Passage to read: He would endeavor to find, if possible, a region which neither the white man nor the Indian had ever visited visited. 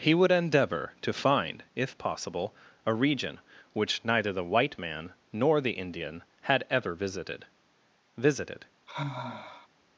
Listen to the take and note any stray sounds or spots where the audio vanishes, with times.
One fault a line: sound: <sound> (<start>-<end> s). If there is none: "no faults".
sound: sigh (8.9-9.7 s)